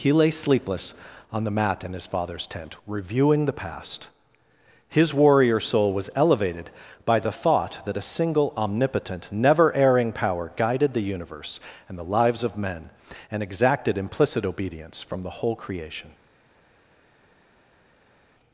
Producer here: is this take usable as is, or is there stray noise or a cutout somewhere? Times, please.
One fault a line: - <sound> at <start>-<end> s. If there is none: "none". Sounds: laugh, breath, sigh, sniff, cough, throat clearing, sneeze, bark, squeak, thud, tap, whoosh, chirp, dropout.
none